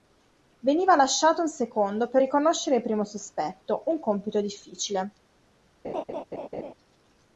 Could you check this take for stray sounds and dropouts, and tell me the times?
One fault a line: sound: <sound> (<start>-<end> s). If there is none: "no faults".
sound: laugh (5.8-6.7 s)